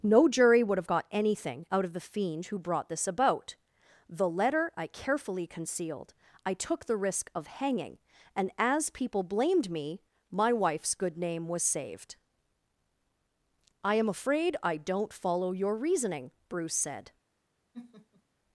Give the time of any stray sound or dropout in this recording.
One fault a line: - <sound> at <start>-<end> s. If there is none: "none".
- laugh at 17.7-18.2 s